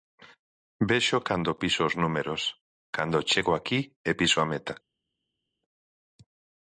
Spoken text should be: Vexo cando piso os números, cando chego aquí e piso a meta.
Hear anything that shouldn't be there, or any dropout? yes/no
no